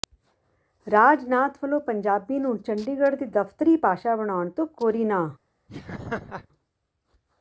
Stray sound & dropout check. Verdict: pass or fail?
fail